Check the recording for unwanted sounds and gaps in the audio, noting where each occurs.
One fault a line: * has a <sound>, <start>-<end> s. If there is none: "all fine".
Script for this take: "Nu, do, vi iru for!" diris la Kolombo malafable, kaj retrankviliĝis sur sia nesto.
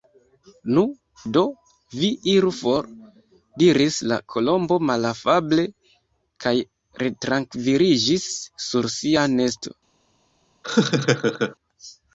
* has a laugh, 10.6-11.6 s